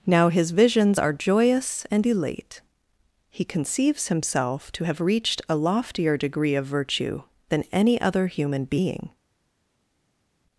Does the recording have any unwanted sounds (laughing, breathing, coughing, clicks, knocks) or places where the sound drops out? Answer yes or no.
no